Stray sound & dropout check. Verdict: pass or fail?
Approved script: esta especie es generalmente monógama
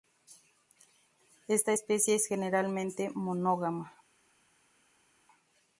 pass